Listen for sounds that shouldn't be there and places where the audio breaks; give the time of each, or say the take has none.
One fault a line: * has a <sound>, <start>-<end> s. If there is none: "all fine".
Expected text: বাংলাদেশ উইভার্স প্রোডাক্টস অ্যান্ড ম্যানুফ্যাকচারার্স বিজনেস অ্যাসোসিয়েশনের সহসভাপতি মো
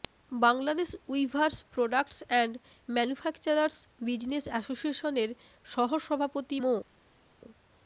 all fine